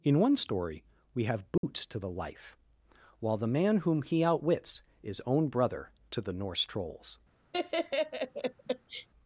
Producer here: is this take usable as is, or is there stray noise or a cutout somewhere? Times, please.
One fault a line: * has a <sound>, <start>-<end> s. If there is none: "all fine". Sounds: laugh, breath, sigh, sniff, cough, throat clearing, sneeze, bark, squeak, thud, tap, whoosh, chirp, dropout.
* has a dropout, 1.6-1.6 s
* has a laugh, 7.5-9.1 s